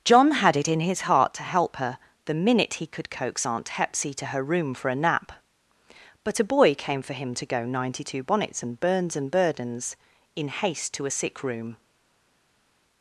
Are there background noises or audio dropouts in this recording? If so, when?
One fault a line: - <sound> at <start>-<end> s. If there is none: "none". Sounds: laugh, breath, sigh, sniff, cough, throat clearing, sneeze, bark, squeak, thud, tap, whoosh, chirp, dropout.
none